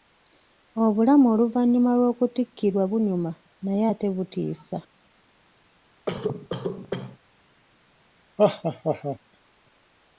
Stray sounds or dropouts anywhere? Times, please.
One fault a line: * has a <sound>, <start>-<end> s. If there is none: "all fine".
* has a cough, 6.1-7.2 s
* has a laugh, 8.4-9.2 s